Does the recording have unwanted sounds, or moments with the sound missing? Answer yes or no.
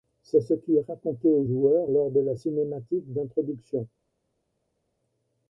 no